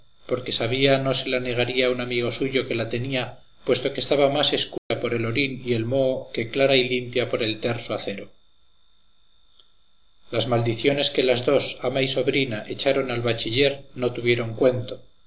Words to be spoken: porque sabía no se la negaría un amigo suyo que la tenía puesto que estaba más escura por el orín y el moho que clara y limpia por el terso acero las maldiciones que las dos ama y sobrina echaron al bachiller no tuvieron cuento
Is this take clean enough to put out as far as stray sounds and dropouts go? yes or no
no